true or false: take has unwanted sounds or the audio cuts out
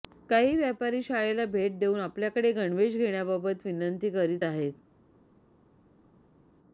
false